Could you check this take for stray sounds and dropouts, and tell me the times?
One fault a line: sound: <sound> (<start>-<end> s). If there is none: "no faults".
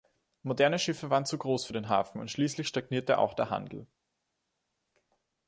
no faults